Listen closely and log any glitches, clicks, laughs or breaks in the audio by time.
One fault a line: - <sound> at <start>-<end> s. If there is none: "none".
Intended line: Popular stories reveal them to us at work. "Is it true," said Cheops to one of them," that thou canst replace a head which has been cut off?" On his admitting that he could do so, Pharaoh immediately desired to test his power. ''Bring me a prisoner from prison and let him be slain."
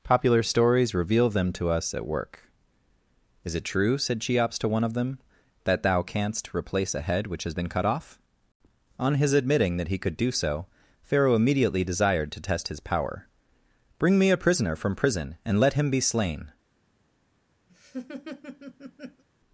- laugh at 17.7-19.2 s